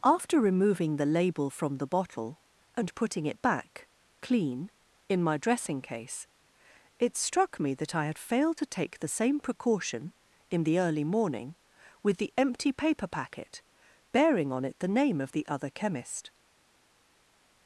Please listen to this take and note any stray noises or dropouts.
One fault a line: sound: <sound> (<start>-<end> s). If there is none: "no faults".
no faults